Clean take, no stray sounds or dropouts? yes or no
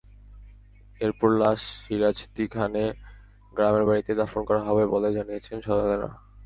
yes